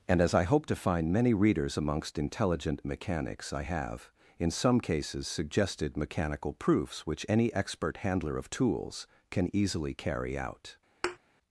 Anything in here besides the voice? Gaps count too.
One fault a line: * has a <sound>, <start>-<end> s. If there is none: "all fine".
* has a thud, 11.0-11.2 s